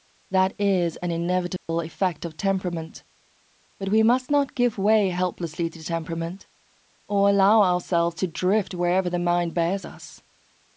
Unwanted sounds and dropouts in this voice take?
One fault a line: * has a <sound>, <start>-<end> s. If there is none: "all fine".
* has a dropout, 1.6-1.7 s